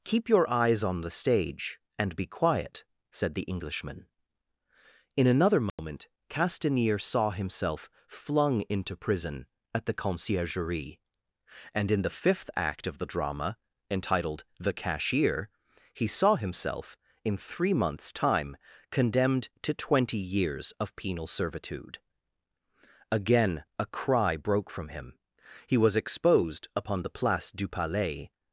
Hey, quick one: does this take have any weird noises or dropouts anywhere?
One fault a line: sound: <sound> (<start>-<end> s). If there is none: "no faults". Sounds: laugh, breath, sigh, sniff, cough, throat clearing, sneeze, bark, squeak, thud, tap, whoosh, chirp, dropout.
sound: dropout (5.7-5.8 s)